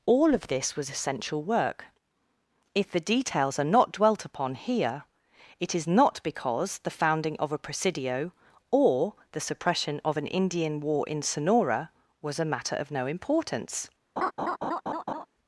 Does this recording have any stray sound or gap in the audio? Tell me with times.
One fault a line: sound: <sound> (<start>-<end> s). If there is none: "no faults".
sound: laugh (14.2-15.3 s)